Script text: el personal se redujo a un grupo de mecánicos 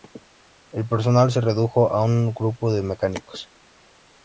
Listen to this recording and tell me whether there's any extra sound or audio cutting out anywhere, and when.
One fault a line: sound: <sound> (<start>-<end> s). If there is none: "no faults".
no faults